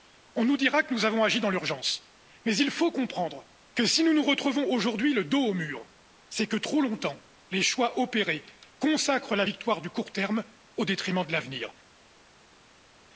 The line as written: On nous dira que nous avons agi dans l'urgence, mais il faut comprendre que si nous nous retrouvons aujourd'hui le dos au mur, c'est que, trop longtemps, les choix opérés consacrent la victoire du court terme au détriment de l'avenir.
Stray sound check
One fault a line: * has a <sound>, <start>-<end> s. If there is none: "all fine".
all fine